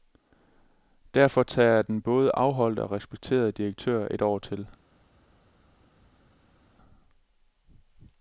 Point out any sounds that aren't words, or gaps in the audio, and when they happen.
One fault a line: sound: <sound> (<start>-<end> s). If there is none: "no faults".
no faults